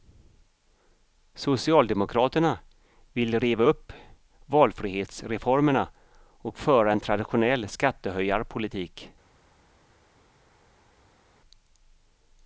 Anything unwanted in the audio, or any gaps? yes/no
no